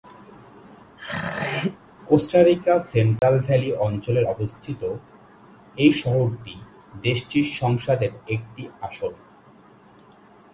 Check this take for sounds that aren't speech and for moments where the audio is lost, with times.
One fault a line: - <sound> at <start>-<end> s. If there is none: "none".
- throat clearing at 1.0-1.8 s
- dropout at 3.2-3.2 s